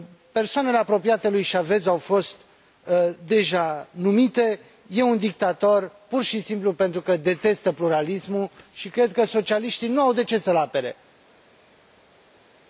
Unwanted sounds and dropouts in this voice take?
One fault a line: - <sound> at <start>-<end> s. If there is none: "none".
none